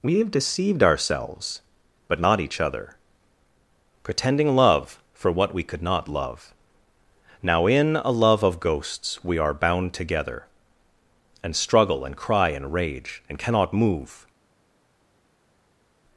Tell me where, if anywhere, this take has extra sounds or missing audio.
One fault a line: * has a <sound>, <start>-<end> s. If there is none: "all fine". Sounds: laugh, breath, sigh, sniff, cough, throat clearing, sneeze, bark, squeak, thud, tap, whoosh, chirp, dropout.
all fine